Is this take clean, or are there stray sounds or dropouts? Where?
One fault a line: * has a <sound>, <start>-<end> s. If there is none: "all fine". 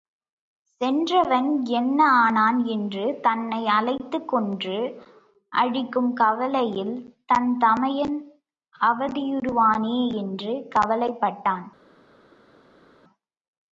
all fine